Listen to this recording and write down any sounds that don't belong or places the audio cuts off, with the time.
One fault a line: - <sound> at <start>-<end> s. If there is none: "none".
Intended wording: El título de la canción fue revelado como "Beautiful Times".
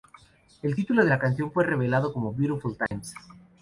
- dropout at 2.9-2.9 s